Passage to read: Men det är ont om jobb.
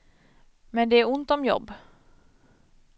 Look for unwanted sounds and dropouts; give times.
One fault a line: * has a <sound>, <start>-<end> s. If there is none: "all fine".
all fine